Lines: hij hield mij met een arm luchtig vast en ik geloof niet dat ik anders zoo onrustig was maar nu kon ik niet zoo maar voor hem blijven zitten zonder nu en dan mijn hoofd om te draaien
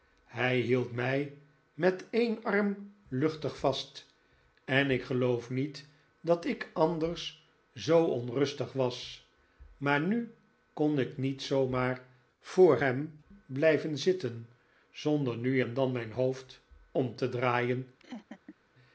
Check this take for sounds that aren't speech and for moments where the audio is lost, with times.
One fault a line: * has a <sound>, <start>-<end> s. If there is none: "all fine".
* has a laugh, 18.0-18.6 s